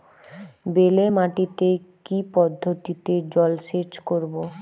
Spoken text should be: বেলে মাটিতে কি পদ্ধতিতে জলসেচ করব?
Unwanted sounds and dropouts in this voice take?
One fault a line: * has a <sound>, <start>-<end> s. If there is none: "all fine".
all fine